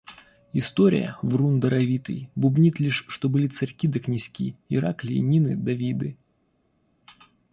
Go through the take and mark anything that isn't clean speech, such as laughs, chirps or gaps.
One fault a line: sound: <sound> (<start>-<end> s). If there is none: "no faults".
no faults